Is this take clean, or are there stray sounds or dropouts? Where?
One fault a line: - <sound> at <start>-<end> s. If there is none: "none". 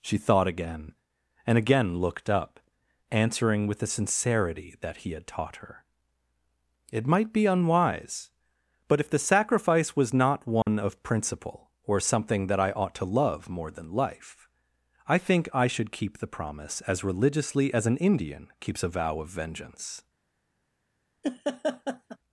- dropout at 10.6-10.7 s
- laugh at 21.2-22.2 s